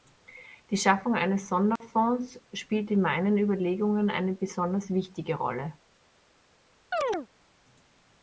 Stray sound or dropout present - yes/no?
yes